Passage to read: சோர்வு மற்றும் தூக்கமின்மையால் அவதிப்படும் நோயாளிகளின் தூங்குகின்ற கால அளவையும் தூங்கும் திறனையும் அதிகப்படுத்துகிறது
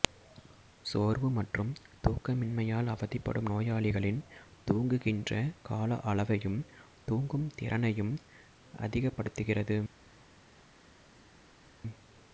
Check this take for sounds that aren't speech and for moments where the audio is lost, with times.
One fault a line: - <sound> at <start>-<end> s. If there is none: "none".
none